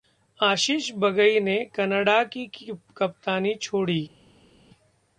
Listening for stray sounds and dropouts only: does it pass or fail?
pass